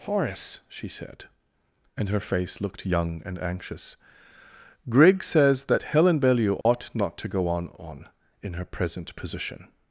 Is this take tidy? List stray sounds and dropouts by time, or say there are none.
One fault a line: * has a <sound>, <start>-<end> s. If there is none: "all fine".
* has a dropout, 6.6-6.7 s